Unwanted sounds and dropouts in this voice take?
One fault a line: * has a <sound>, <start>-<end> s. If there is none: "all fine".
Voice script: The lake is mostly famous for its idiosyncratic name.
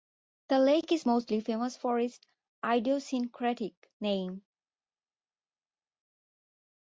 all fine